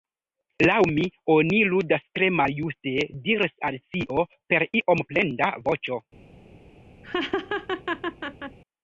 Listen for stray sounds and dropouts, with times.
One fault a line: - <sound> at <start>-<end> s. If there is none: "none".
- laugh at 7.0-8.6 s